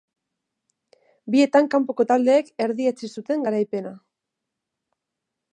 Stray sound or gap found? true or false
false